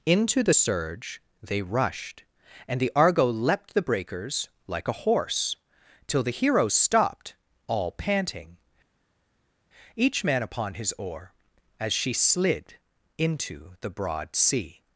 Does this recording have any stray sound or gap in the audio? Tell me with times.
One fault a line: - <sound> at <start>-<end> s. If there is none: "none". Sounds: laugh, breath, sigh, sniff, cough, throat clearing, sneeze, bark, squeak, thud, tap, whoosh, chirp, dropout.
none